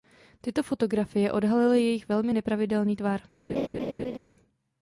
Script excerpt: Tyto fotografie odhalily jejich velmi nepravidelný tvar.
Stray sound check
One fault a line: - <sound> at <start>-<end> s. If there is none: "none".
- laugh at 3.5-4.2 s